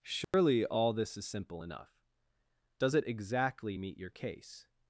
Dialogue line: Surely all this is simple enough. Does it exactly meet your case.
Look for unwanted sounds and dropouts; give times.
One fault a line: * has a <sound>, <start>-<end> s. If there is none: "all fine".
* has a dropout, 0.2-0.3 s